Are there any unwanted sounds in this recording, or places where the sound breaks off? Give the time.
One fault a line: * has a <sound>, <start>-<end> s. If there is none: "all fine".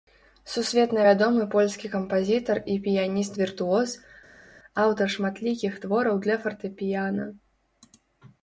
all fine